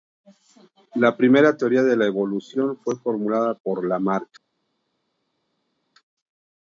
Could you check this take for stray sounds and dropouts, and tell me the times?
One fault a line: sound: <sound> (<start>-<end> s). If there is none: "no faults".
no faults